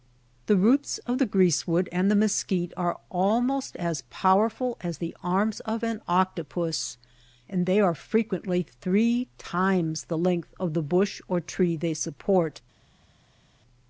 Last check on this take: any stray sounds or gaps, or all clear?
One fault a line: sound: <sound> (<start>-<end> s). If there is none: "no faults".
no faults